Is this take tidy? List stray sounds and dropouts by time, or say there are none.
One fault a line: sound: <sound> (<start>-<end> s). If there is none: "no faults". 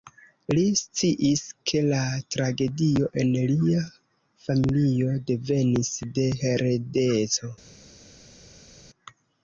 no faults